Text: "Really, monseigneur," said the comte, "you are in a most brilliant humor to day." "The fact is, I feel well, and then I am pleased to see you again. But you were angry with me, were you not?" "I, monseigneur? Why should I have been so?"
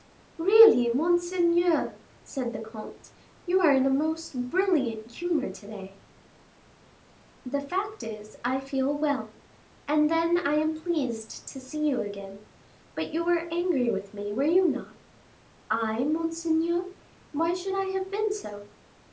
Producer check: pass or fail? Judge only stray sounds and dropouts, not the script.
pass